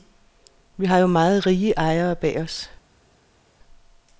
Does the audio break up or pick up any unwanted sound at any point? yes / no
no